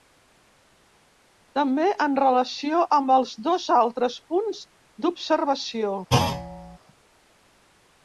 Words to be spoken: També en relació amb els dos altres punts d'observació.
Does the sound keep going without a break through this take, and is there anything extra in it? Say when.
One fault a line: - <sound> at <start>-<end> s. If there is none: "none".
- thud at 6.1-6.8 s